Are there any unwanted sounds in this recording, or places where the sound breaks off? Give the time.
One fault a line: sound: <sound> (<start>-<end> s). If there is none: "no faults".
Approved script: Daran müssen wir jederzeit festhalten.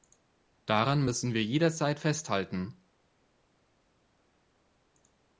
no faults